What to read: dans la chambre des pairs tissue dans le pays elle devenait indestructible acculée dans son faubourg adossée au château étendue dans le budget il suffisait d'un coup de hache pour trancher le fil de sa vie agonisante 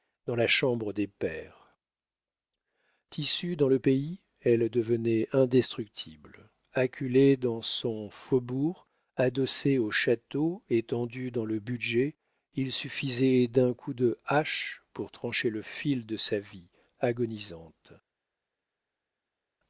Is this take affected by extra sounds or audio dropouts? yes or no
no